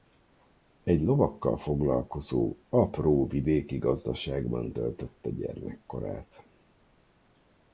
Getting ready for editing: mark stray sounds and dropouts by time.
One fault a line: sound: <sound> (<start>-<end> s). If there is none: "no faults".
no faults